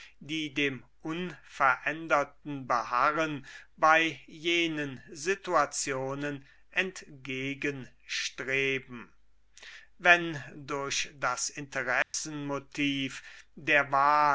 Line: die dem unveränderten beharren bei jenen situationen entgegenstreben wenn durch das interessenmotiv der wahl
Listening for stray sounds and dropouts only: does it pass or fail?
fail